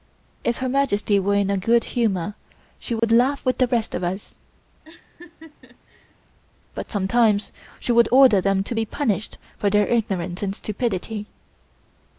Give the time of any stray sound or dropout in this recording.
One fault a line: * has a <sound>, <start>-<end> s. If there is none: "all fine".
* has a dropout, 3.0-3.0 s
* has a laugh, 4.8-6.1 s